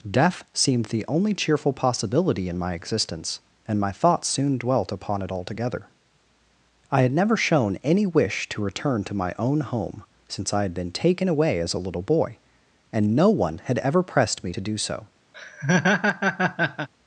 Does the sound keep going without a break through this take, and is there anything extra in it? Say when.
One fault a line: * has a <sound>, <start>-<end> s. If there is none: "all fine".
* has a laugh, 15.3-16.9 s